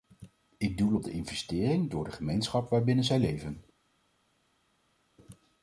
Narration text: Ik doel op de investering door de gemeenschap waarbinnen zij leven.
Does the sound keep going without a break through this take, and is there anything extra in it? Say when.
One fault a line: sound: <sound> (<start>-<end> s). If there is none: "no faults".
no faults